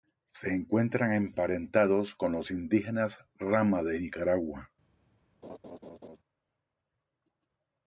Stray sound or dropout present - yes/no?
yes